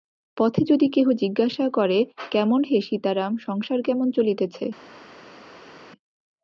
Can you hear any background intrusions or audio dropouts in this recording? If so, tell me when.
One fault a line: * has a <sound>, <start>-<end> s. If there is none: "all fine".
all fine